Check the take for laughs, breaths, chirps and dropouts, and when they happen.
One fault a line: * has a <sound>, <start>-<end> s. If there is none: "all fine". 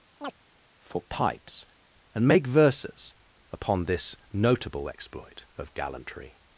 * has a chirp, 0.2-0.4 s